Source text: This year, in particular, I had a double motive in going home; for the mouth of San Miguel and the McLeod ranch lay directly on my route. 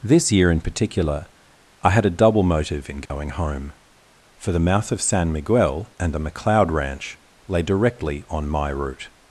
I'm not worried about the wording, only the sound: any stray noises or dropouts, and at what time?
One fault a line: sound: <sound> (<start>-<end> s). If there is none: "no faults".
sound: dropout (3.1-3.1 s)